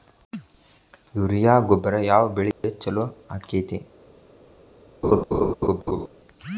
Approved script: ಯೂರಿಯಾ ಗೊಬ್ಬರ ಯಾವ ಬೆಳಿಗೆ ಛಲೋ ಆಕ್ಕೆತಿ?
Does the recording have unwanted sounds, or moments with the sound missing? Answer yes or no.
yes